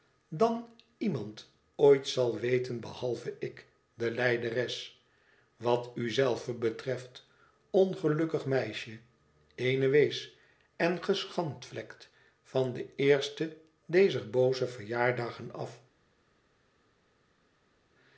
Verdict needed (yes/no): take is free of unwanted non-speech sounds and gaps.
yes